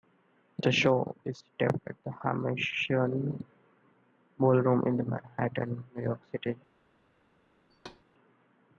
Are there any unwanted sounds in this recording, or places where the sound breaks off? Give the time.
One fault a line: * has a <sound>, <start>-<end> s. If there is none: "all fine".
* has a thud, 7.7-8.0 s